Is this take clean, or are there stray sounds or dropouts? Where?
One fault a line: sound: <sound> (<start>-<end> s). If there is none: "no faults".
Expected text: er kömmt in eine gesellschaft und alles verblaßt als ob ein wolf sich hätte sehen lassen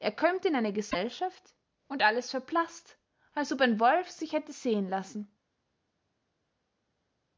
no faults